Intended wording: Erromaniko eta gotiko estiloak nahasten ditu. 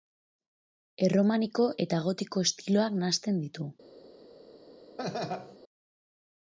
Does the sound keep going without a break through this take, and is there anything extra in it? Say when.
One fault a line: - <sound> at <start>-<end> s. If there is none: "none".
- laugh at 5.0-5.6 s